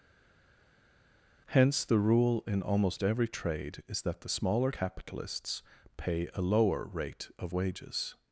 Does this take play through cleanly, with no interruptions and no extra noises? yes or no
yes